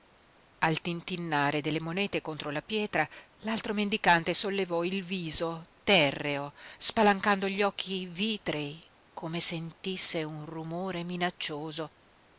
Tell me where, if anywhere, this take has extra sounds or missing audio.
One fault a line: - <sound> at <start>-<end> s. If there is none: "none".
none